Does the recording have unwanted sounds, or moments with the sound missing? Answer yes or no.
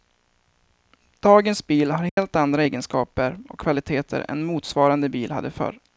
yes